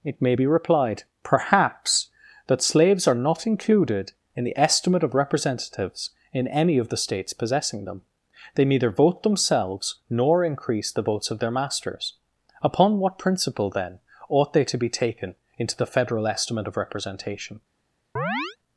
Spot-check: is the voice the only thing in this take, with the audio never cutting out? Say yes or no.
no